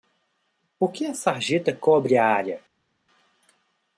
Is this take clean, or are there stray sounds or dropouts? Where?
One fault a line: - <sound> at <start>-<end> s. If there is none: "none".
none